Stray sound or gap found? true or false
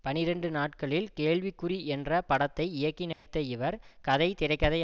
true